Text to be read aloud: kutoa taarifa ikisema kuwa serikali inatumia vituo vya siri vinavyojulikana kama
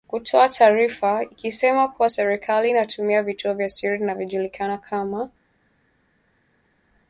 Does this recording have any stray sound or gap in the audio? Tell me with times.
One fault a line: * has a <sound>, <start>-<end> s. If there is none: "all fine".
all fine